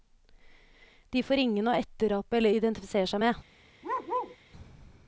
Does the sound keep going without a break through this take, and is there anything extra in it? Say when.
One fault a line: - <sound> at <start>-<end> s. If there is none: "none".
- bark at 3.8-4.4 s